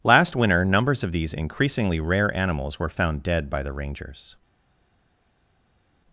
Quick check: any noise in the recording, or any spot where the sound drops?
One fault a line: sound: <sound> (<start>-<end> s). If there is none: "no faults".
no faults